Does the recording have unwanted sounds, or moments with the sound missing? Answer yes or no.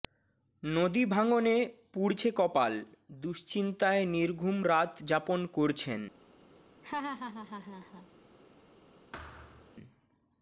yes